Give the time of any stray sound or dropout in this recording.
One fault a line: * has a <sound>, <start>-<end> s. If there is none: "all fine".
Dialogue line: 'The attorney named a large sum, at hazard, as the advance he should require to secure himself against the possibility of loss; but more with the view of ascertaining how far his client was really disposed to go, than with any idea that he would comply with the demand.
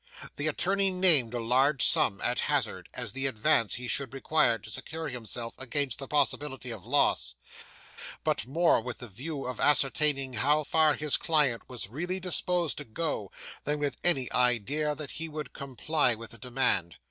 all fine